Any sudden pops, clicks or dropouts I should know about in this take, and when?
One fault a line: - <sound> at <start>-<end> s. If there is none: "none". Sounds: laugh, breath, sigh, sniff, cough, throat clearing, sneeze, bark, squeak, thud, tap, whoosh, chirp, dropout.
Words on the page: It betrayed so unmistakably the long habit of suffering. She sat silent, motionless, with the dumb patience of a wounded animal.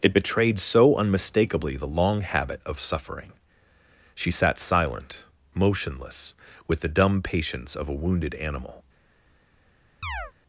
- chirp at 10.0-10.3 s